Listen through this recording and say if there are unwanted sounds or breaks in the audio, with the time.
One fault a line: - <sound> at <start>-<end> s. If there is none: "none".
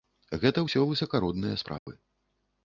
- dropout at 1.8-1.9 s